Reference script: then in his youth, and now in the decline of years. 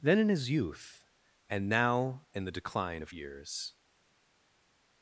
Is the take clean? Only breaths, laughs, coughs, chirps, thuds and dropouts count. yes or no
yes